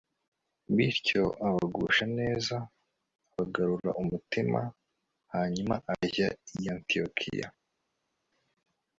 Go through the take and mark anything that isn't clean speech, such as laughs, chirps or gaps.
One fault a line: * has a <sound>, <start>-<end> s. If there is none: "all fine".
all fine